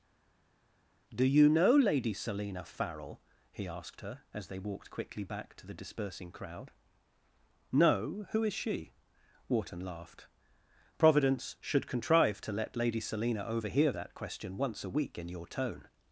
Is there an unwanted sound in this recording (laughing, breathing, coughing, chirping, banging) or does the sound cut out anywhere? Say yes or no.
no